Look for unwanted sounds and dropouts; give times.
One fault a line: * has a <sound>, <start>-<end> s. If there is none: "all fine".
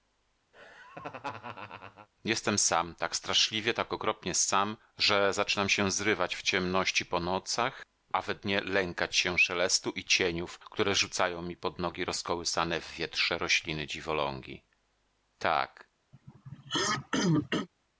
* has a laugh, 0.5-2.1 s
* has a throat clearing, 16.1-17.7 s